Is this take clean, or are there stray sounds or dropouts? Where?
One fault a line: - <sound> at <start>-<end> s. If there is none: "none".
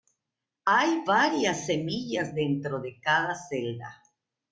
none